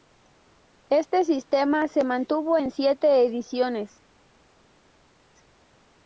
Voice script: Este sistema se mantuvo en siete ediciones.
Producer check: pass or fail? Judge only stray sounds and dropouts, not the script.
pass